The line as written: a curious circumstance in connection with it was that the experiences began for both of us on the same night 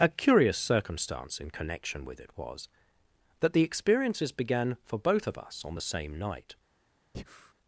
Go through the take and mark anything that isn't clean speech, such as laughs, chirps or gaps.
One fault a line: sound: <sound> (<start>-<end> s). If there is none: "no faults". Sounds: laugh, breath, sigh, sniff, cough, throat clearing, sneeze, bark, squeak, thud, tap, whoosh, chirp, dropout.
sound: breath (7.1-7.5 s)